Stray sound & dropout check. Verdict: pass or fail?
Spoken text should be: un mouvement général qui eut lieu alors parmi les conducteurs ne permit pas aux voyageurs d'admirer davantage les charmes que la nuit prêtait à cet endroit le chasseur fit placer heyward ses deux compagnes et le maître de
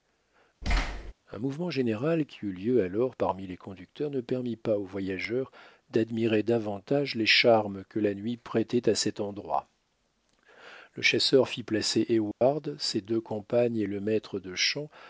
fail